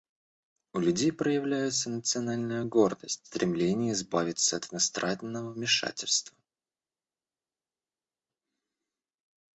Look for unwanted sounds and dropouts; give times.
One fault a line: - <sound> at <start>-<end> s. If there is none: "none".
none